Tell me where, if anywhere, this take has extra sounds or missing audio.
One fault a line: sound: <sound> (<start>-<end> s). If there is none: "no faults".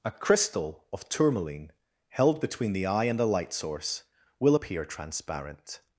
no faults